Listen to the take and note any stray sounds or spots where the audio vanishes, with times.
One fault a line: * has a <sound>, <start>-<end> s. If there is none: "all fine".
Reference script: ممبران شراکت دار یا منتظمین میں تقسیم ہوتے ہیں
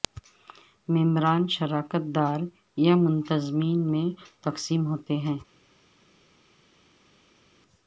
all fine